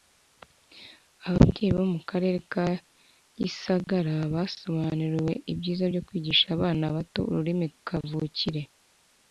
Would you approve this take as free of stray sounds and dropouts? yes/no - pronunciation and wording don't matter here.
yes